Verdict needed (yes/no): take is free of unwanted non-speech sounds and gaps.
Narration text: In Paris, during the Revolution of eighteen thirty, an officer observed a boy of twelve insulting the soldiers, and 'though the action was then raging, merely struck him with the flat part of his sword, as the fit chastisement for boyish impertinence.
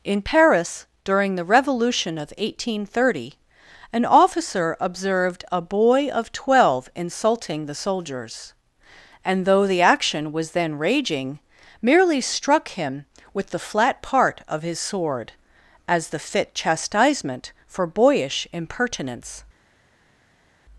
yes